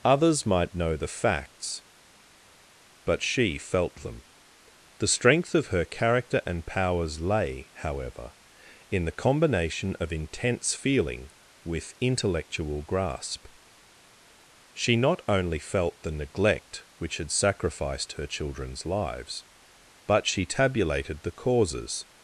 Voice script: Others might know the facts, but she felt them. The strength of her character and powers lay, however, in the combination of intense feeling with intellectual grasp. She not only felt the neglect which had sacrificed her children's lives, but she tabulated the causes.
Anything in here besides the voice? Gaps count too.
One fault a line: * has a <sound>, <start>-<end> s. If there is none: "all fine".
all fine